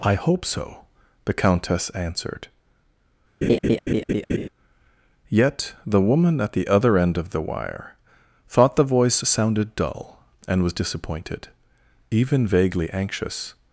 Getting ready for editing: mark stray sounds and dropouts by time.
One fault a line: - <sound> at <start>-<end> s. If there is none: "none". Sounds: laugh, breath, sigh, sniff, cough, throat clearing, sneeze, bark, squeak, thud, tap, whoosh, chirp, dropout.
- laugh at 3.4-4.5 s